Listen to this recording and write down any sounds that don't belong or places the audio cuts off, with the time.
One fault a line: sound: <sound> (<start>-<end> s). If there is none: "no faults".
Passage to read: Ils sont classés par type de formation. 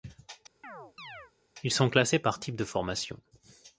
sound: chirp (0.6-1.3 s)